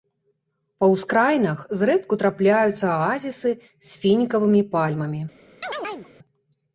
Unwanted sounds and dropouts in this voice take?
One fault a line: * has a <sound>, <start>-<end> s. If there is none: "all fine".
* has a chirp, 5.6-6.1 s